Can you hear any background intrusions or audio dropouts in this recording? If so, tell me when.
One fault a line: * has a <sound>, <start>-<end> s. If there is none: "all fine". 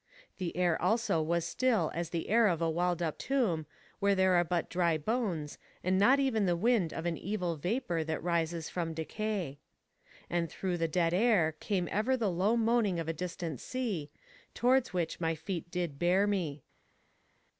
all fine